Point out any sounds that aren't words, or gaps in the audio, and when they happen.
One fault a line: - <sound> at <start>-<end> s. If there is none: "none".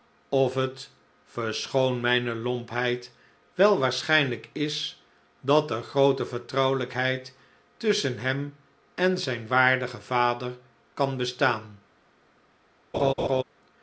- laugh at 12.9-13.4 s